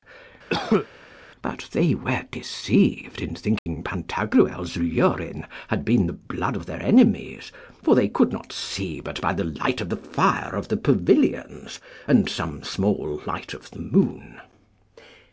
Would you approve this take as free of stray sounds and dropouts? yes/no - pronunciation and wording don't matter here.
no